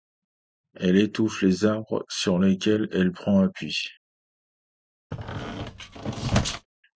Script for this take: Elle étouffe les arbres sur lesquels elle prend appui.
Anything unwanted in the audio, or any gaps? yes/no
yes